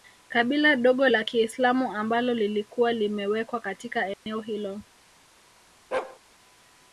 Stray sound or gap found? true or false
true